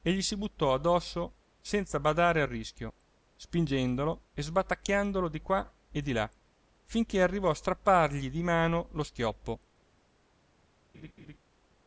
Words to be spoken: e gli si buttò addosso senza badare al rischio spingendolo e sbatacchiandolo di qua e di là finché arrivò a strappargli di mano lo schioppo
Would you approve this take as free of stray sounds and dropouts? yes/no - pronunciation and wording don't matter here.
no